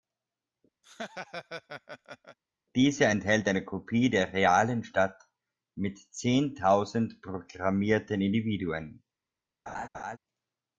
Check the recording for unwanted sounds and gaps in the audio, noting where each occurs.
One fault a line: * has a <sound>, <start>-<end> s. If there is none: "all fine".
* has a laugh, 0.8-2.4 s
* has a laugh, 9.7-10.2 s